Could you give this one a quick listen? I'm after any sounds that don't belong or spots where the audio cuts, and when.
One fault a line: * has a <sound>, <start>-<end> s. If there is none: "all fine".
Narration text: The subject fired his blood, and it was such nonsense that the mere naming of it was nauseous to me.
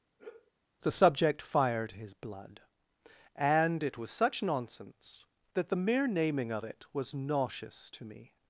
* has a sigh, 0.2-0.5 s